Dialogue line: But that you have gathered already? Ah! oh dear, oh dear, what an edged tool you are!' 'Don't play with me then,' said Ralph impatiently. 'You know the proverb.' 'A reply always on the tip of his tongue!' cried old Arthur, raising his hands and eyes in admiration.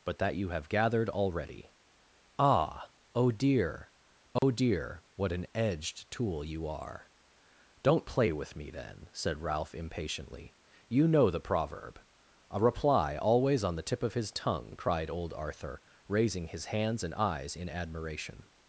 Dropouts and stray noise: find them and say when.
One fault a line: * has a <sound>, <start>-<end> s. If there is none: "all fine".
* has a dropout, 4.4-4.4 s